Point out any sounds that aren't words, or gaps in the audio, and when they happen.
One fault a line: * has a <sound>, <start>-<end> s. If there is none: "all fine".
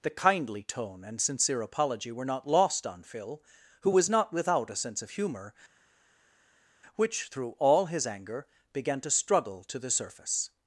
all fine